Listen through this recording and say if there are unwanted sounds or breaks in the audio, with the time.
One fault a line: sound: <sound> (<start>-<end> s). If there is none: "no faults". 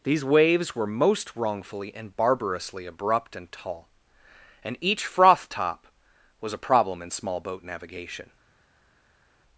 no faults